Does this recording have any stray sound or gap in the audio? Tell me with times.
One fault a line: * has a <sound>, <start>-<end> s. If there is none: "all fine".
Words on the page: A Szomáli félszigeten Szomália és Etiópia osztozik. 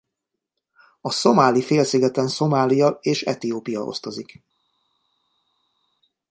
all fine